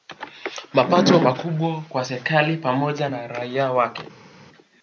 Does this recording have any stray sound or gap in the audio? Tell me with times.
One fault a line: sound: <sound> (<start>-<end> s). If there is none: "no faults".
no faults